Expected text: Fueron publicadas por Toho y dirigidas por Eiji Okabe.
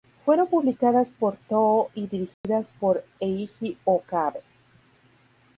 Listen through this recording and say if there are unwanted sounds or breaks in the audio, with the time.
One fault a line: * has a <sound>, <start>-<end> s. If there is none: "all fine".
* has a dropout, 2.3-2.4 s